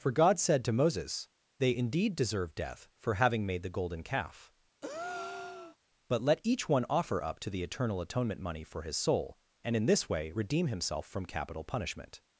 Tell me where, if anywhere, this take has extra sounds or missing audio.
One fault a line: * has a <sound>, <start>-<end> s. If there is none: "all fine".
* has a breath, 4.8-5.8 s